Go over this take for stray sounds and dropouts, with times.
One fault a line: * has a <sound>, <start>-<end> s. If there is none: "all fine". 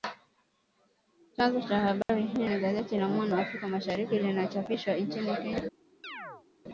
* has a dropout, 2.0-2.1 s
* has a chirp, 6.0-6.5 s